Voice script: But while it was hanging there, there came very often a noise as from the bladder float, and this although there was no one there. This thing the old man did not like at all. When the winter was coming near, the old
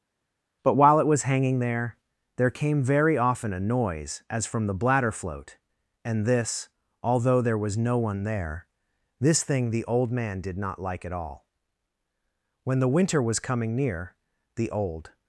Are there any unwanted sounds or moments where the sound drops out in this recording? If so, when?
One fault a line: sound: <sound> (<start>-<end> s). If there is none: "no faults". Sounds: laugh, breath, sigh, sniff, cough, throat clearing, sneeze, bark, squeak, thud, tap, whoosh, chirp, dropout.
no faults